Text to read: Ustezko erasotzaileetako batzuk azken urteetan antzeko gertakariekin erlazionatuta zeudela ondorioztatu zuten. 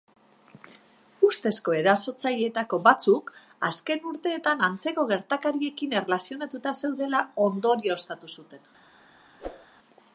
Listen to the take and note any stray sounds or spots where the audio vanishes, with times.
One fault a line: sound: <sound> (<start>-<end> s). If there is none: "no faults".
sound: whoosh (9.4-9.7 s)